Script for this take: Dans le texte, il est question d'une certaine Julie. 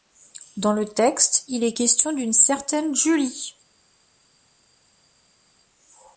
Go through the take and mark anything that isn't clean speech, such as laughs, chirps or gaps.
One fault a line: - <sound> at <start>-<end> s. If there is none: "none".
none